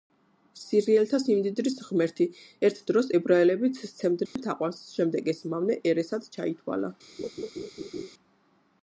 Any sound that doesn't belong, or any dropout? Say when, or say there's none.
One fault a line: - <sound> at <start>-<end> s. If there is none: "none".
- dropout at 4.3-4.4 s
- laugh at 7.2-8.1 s